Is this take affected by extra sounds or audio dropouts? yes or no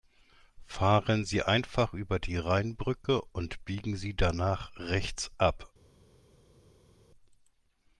no